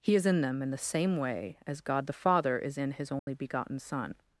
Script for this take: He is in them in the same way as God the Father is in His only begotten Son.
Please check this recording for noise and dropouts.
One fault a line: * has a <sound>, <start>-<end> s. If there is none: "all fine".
* has a dropout, 3.2-3.3 s